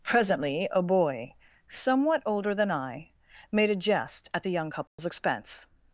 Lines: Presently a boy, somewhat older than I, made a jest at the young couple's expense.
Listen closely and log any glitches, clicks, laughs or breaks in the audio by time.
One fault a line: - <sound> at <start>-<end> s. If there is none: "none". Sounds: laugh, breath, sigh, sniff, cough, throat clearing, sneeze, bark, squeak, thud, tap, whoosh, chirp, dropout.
- dropout at 4.9-5.0 s